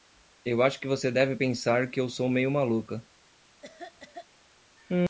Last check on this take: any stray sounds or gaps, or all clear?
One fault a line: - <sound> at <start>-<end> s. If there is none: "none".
- cough at 3.6-4.3 s